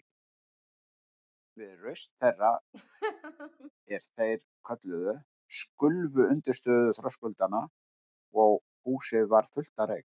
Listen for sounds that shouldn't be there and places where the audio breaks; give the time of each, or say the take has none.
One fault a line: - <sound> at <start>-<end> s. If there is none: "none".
- laugh at 2.7-3.7 s